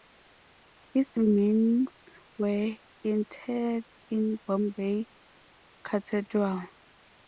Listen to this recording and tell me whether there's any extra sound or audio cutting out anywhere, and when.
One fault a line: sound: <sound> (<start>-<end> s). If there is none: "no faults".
no faults